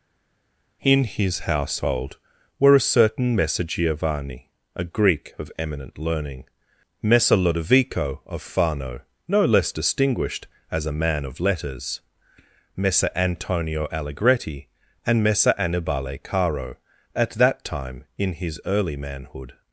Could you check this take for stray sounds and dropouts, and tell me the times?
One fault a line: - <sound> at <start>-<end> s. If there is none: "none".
none